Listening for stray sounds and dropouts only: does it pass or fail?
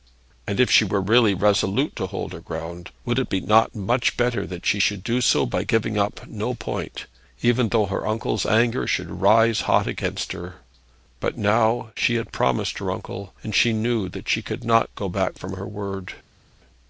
pass